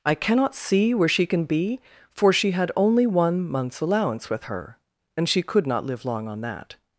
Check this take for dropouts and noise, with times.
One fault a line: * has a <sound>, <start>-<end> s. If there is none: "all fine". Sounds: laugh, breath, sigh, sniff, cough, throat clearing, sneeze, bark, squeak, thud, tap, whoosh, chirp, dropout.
all fine